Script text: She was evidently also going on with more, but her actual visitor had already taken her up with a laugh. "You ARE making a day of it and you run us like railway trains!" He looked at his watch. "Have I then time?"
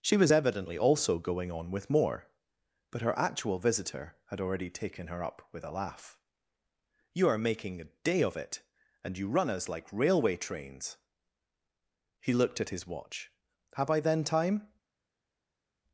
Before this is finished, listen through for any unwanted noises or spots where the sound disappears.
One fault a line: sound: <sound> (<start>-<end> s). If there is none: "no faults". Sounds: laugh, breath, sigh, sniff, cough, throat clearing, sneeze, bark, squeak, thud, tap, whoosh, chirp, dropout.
no faults